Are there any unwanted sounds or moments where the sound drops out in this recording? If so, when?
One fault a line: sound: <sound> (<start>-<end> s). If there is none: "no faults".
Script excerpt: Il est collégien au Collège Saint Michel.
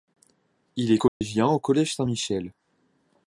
sound: dropout (1.1-1.2 s)